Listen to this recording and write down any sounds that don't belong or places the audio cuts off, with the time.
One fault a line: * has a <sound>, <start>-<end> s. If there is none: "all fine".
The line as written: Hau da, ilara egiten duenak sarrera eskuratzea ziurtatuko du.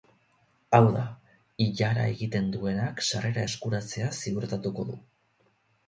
all fine